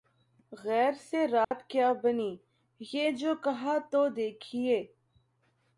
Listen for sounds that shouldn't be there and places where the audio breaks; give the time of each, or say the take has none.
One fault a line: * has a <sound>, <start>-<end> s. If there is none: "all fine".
* has a dropout, 1.4-1.5 s